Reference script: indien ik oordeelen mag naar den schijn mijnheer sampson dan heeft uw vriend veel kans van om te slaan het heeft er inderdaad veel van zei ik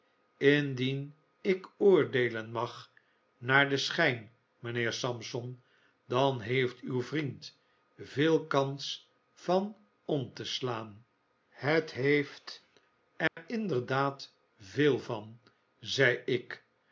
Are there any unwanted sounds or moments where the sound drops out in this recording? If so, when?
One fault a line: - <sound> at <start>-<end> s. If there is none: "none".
- dropout at 13.3-13.4 s